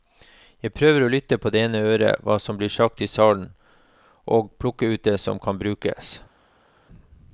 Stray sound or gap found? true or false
false